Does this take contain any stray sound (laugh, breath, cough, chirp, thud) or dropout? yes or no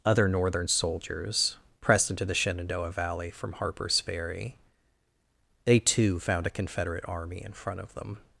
no